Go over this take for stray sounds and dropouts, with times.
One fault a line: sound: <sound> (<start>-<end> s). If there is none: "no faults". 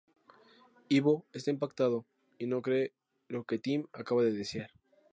no faults